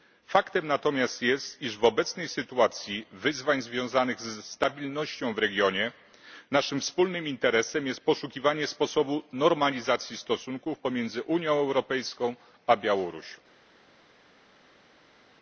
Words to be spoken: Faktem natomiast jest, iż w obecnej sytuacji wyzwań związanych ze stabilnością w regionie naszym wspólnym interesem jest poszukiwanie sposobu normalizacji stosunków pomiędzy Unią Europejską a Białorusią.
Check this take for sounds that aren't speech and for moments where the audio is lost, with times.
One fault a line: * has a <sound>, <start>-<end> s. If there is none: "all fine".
all fine